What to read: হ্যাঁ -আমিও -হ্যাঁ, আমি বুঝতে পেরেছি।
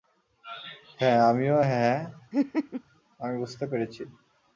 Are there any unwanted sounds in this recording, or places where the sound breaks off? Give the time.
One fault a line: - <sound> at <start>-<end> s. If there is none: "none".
- laugh at 2.3-2.8 s